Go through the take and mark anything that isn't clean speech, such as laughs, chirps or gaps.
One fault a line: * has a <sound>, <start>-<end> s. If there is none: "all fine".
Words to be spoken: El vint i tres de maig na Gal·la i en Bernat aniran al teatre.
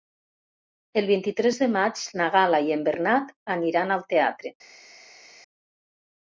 all fine